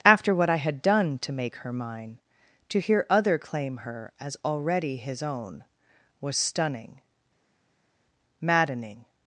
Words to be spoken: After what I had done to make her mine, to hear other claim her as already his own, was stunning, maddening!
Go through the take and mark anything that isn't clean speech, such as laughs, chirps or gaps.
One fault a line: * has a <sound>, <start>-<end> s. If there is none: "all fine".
all fine